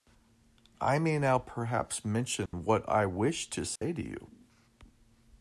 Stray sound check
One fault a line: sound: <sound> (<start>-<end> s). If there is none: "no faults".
sound: dropout (2.5-2.5 s)
sound: dropout (3.8-3.8 s)